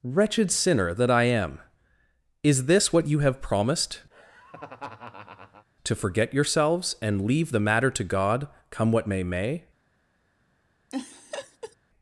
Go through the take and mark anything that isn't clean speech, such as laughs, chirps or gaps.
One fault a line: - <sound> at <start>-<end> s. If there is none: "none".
- laugh at 4.1-5.7 s
- laugh at 10.9-11.8 s